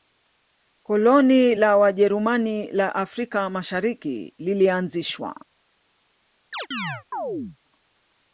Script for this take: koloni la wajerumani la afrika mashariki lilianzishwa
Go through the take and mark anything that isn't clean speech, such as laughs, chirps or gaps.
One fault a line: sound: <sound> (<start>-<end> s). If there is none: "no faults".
sound: chirp (6.5-7.6 s)